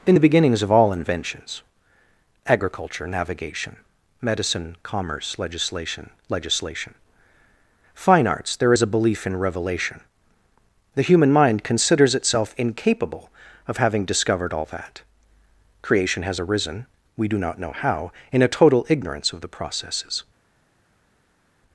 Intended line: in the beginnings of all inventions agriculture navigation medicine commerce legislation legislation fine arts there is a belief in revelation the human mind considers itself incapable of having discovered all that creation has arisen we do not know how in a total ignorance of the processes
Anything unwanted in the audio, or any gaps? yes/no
no